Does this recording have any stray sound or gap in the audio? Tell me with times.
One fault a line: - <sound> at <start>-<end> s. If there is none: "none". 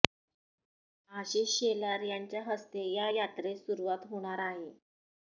none